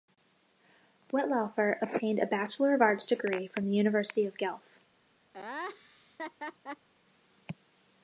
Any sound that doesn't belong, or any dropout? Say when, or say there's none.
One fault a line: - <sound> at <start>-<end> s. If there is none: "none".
- laugh at 5.3-6.9 s